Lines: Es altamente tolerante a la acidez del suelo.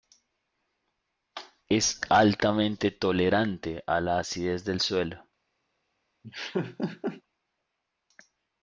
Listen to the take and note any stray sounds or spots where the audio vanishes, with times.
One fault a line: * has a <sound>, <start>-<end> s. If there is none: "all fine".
* has a laugh, 6.2-7.2 s